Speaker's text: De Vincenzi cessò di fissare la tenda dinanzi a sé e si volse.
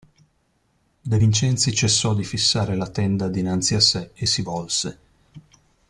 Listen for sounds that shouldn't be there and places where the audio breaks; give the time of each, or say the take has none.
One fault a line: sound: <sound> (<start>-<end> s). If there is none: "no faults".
no faults